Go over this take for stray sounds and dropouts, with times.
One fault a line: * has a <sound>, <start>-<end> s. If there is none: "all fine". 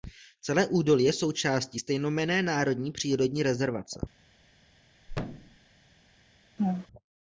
* has a thud, 5.1-5.6 s
* has a laugh, 6.6-6.9 s